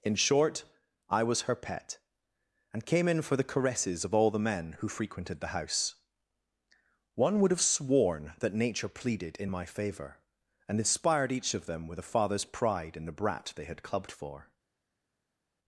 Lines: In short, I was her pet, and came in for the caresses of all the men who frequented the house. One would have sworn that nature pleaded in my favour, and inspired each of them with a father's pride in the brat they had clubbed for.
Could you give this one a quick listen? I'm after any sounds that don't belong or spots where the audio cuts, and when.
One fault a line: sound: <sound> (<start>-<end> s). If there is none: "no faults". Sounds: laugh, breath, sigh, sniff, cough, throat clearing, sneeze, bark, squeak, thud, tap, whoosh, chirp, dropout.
no faults